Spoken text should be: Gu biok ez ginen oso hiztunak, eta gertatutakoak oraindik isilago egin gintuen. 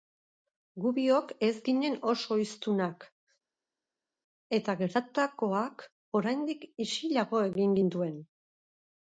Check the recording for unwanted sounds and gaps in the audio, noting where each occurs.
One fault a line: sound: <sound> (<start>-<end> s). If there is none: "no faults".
no faults